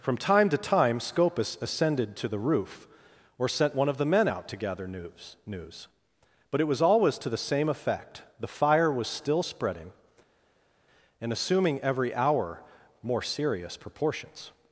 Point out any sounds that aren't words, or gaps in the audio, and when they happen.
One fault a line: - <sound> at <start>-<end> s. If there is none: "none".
none